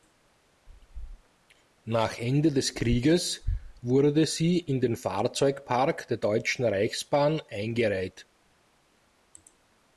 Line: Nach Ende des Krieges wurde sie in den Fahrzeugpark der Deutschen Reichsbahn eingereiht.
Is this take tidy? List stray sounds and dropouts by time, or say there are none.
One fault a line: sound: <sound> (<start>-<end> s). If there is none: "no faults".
no faults